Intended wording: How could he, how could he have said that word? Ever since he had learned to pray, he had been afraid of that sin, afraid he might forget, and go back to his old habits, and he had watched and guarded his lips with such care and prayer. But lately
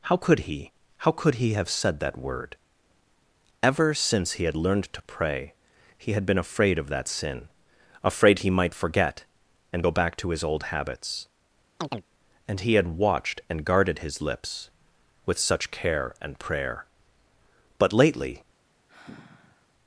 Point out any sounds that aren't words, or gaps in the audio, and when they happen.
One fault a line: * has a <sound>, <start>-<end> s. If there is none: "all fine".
* has a chirp, 11.8-12.0 s
* has a sigh, 18.9-19.7 s